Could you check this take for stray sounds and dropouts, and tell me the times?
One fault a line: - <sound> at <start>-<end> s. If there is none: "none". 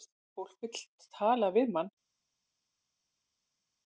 none